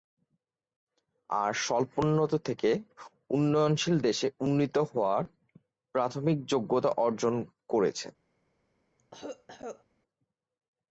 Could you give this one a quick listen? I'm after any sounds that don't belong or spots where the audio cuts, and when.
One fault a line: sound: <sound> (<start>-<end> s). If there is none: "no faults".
sound: cough (9.0-9.8 s)